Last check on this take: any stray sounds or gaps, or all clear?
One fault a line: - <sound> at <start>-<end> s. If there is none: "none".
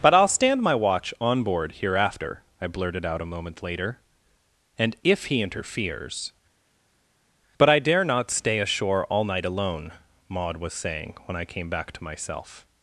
none